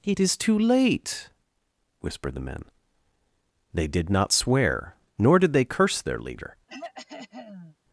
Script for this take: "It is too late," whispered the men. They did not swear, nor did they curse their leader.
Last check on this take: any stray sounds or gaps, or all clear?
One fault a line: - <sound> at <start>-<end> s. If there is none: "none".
- throat clearing at 6.7-7.8 s